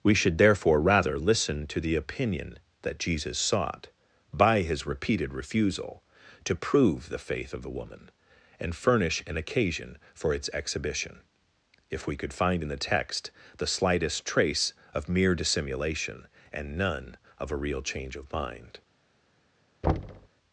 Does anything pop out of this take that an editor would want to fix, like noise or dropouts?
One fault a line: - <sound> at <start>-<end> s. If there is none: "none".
- thud at 19.8-20.3 s